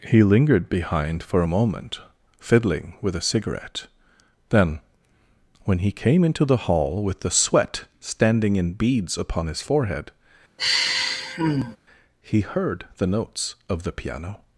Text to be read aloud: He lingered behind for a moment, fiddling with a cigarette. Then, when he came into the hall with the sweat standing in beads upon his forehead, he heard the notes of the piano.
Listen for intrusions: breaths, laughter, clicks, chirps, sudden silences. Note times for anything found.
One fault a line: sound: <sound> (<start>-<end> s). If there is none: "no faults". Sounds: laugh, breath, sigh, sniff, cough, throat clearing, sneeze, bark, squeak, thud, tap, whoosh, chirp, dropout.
sound: sigh (10.6-11.8 s)